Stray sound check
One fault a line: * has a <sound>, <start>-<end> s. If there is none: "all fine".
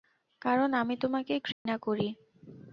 * has a dropout, 1.5-1.7 s